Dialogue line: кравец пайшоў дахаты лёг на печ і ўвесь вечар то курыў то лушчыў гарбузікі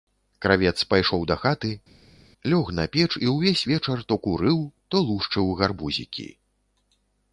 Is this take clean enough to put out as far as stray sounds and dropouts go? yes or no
yes